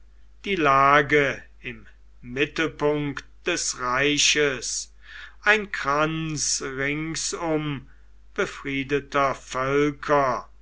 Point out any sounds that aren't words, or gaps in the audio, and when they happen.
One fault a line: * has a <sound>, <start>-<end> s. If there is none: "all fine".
all fine